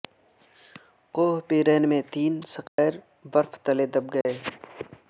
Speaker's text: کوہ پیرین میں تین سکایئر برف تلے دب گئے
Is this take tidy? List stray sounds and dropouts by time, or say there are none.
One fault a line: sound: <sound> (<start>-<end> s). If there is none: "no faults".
sound: dropout (2.7-2.8 s)
sound: dropout (4.2-4.3 s)